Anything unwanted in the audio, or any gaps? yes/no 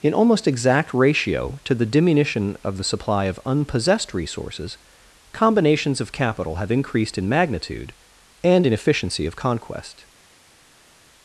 no